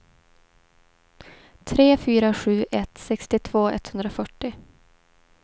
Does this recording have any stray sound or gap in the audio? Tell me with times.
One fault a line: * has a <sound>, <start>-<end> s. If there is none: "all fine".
all fine